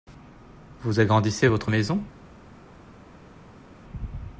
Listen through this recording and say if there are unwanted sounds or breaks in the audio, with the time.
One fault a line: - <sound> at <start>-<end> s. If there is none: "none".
none